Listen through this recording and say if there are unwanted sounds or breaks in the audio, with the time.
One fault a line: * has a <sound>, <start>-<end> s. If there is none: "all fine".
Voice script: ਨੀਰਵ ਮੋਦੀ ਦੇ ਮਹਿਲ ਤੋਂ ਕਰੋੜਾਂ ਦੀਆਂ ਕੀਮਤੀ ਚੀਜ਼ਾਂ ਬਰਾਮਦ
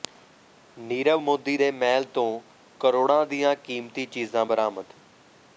all fine